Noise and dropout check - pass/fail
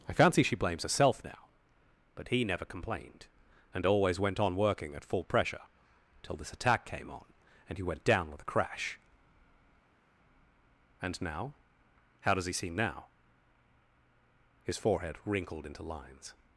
pass